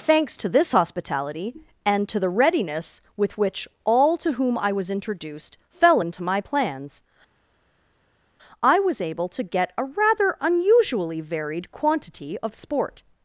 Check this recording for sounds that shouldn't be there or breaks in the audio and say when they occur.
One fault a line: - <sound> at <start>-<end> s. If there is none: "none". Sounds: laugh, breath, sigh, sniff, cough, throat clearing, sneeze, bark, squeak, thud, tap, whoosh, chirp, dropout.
none